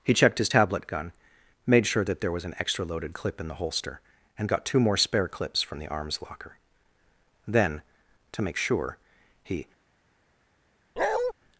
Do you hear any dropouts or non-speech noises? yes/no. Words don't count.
yes